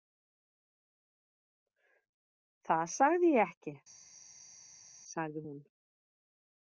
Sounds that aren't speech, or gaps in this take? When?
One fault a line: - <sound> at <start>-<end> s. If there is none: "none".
none